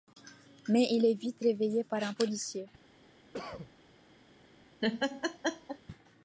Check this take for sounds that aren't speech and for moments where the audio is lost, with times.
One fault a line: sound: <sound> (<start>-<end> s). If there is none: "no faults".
sound: cough (3.3-3.7 s)
sound: laugh (4.8-5.8 s)